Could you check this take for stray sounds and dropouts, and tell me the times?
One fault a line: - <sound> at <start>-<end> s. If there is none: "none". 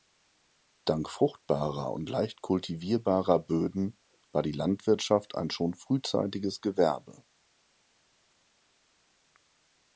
none